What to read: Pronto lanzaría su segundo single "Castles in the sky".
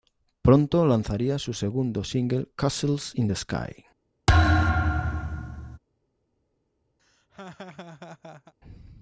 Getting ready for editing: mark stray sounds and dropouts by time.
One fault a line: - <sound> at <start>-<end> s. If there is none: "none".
- thud at 4.3-5.8 s
- laugh at 7.0-8.5 s